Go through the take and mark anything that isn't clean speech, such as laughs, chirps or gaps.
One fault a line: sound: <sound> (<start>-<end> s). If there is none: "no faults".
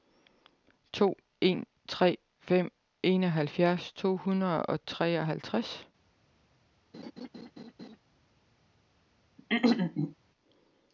sound: laugh (6.9-8.0 s)
sound: throat clearing (9.4-10.1 s)